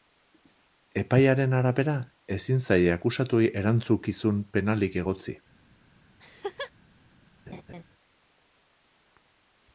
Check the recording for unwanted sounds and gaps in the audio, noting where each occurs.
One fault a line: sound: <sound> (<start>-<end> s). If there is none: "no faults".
sound: laugh (6.2-6.7 s)
sound: laugh (7.5-7.8 s)